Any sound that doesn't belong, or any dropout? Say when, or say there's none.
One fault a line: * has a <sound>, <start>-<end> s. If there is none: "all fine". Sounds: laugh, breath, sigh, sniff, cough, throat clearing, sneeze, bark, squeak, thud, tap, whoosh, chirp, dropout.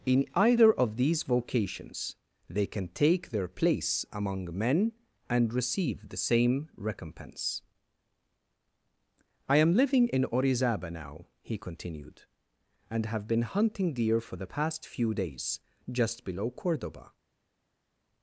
all fine